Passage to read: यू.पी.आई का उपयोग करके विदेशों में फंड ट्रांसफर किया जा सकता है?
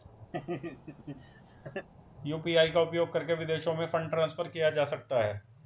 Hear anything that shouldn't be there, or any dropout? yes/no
yes